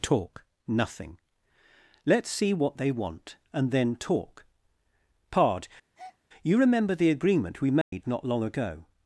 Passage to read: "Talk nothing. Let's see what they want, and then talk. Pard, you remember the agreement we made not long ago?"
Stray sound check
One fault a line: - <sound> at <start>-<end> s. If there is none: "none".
- breath at 5.9-6.2 s
- dropout at 7.8-7.9 s